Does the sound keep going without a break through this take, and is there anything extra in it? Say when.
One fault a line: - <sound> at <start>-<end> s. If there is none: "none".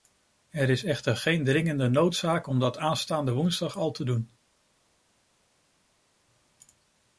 none